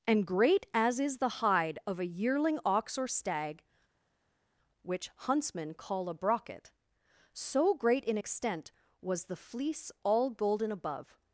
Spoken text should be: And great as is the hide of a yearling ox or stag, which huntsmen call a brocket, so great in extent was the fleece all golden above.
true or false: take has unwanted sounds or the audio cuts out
false